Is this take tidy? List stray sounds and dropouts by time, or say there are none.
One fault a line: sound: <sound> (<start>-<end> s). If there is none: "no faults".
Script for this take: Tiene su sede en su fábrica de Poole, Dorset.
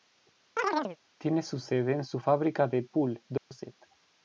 sound: chirp (0.6-1.0 s)
sound: dropout (3.4-3.5 s)